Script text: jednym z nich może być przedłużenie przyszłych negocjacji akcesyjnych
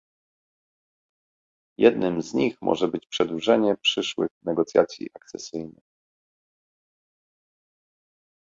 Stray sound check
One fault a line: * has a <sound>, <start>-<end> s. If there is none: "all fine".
all fine